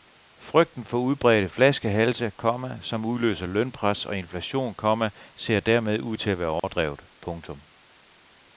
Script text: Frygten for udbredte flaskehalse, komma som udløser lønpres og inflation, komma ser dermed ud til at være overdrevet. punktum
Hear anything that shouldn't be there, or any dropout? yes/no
yes